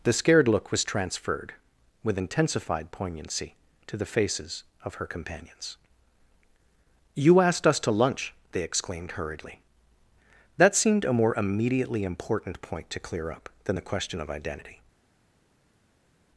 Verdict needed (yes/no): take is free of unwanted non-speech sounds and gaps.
yes